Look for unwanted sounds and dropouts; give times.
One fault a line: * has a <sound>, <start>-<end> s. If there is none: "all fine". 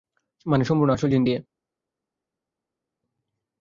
all fine